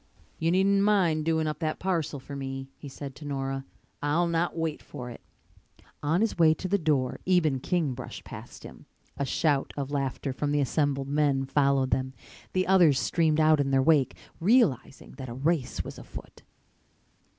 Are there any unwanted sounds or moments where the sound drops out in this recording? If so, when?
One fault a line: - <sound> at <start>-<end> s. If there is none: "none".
none